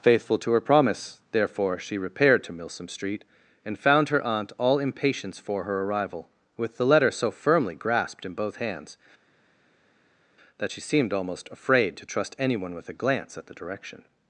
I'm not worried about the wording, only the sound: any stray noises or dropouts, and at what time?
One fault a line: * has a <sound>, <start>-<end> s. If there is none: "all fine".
all fine